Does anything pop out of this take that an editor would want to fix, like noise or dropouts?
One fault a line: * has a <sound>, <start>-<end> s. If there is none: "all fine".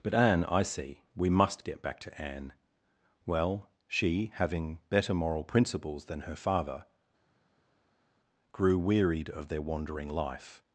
all fine